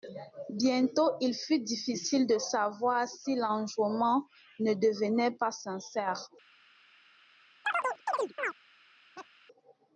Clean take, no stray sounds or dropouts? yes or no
no